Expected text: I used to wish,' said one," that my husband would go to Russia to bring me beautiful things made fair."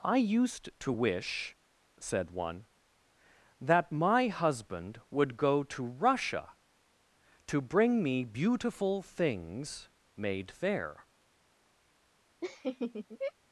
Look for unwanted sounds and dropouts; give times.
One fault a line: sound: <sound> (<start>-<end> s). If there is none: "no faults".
sound: laugh (12.4-13.3 s)